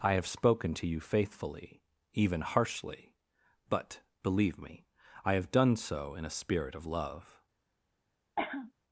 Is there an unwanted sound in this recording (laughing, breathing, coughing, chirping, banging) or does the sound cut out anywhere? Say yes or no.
yes